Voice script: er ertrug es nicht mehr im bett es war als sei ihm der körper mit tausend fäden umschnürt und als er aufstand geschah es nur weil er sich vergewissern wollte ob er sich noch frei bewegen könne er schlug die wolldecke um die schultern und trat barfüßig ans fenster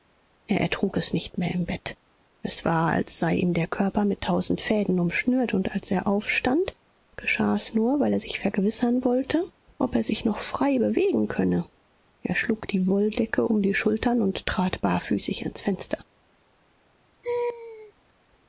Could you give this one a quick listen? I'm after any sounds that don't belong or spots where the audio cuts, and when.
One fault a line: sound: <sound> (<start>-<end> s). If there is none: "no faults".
sound: laugh (17.2-17.9 s)